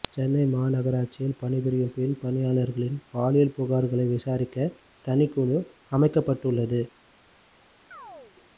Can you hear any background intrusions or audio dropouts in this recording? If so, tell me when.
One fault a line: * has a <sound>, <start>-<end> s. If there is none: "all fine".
* has a chirp, 7.9-8.4 s